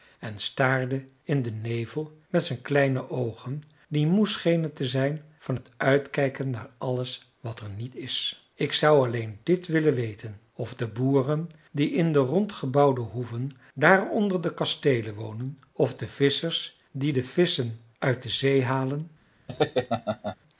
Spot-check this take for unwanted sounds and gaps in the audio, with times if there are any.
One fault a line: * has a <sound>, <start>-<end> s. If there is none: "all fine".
* has a laugh, 19.5-20.4 s